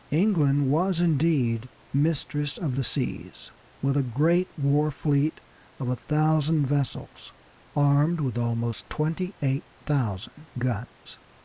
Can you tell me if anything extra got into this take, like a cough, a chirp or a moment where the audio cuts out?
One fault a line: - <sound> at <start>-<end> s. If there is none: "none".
none